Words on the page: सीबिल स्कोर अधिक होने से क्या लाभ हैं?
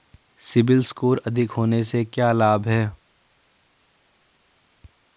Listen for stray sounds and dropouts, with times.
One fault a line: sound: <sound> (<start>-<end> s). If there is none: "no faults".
no faults